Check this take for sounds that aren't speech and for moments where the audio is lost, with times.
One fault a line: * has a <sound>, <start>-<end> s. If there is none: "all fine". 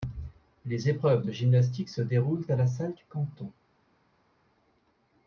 all fine